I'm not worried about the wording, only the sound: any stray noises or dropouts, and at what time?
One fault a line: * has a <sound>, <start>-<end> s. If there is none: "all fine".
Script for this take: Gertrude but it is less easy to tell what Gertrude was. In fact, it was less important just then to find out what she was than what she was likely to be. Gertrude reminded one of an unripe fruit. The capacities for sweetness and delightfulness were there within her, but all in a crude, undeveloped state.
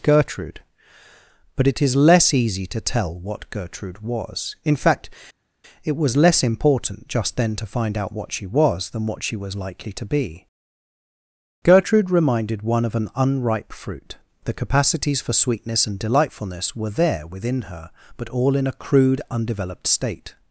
all fine